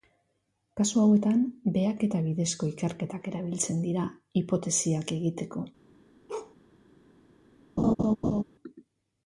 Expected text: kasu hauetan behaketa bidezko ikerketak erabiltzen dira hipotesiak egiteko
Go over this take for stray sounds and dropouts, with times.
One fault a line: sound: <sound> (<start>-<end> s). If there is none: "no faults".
sound: bark (6.3-6.6 s)
sound: laugh (7.8-8.4 s)